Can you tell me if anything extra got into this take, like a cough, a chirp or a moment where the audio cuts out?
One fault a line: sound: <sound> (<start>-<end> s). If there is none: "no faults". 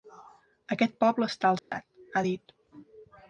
sound: dropout (1.6-1.7 s)